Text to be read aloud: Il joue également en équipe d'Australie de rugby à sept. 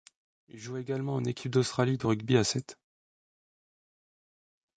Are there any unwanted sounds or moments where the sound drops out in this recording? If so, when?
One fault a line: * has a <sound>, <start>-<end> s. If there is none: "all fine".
all fine